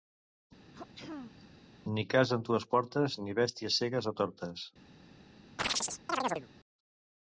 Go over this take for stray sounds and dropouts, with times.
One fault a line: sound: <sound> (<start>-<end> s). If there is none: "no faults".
sound: throat clearing (0.7-1.7 s)
sound: chirp (5.6-6.5 s)